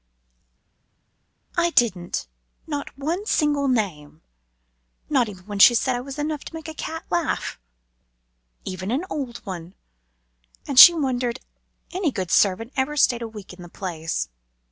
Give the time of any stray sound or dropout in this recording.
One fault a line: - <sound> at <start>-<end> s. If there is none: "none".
none